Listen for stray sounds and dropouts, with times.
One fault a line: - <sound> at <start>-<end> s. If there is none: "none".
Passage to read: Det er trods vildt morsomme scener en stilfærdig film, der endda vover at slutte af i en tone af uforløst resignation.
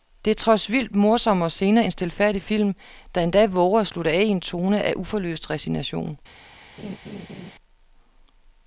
- laugh at 6.8-7.5 s